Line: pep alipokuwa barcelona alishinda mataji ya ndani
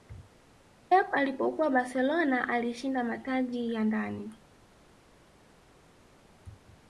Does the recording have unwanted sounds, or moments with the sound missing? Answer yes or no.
no